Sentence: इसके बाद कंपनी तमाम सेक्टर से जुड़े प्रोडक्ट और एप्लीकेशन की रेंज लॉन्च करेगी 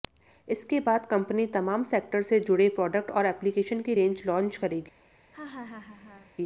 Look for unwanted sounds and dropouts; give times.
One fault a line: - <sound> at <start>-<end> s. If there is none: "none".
- laugh at 5.3-6.3 s